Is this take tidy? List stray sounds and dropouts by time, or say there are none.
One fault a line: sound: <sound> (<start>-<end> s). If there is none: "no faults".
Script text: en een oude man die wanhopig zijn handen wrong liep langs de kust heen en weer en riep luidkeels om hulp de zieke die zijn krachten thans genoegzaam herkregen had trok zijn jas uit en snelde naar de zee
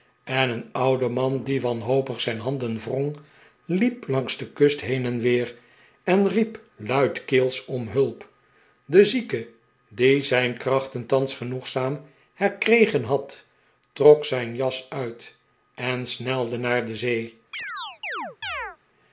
sound: chirp (17.5-18.8 s)